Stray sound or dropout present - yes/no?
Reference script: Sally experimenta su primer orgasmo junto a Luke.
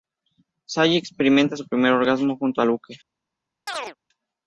yes